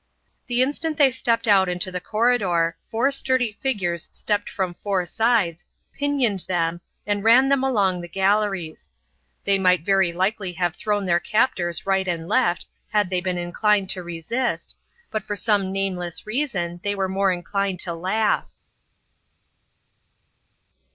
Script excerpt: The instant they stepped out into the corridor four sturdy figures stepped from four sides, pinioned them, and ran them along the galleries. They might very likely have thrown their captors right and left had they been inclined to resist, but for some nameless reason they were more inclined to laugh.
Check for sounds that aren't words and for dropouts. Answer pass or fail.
pass